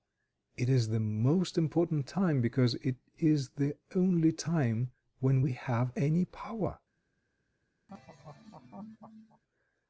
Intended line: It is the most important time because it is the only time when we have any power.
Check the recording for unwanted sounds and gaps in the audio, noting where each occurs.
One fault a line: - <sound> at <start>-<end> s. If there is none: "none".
- laugh at 7.9-9.4 s